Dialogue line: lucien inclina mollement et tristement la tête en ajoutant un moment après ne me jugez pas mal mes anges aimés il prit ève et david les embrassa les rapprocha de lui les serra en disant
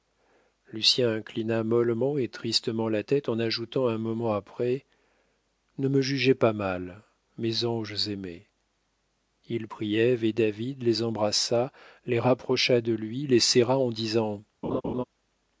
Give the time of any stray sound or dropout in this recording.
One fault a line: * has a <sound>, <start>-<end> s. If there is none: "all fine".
* has a laugh, 14.6-15.0 s